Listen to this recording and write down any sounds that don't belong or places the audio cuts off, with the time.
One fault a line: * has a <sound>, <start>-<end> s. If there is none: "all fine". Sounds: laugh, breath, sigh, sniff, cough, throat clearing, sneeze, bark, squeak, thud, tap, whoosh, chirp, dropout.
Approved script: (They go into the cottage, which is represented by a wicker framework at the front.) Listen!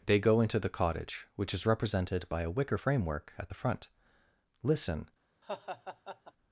* has a laugh, 5.4-6.3 s